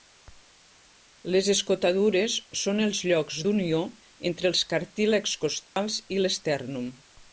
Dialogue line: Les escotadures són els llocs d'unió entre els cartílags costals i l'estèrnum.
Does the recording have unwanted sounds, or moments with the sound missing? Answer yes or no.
yes